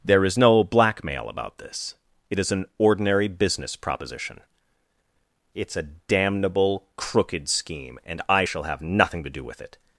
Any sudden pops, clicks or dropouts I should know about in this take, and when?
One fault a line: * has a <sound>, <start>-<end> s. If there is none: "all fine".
all fine